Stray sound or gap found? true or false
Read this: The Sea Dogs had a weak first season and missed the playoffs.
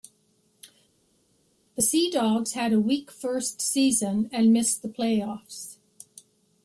false